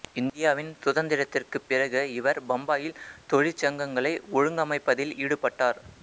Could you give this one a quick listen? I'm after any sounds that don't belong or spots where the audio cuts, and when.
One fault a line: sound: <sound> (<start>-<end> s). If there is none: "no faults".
no faults